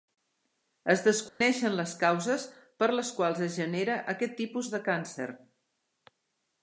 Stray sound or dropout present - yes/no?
yes